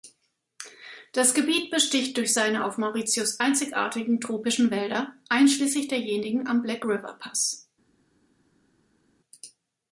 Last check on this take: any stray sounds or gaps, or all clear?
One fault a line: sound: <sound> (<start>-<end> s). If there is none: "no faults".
no faults